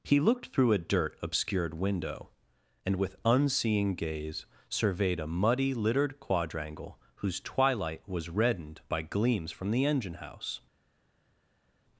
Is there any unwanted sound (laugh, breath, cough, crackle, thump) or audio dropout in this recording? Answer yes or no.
no